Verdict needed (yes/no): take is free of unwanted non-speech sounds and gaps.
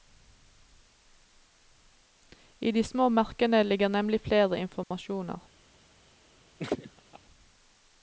no